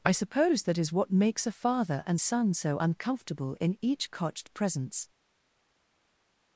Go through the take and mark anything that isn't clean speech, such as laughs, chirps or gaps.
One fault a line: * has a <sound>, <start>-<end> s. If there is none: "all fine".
all fine